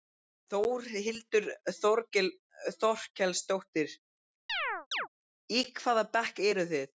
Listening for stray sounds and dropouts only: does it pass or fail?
fail